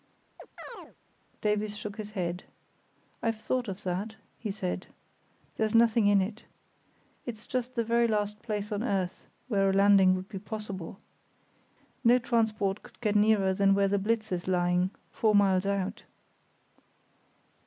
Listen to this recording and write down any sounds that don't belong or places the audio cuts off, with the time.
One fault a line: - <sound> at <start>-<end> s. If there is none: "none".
- chirp at 0.4-1.0 s